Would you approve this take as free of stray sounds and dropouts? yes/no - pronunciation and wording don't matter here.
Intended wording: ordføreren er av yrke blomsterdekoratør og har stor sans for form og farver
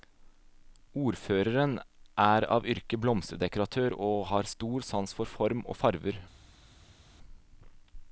yes